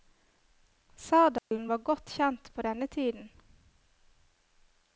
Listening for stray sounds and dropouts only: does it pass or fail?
fail